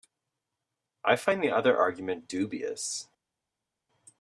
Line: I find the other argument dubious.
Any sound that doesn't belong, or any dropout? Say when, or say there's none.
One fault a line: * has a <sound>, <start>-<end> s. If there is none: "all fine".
all fine